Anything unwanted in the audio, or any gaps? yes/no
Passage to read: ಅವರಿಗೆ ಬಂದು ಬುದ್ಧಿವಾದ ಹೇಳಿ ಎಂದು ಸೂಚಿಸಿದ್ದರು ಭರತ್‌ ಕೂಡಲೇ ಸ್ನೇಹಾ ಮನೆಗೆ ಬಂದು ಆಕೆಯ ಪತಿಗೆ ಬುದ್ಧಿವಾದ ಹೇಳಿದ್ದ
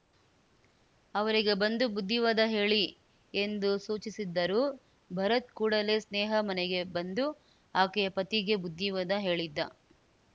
no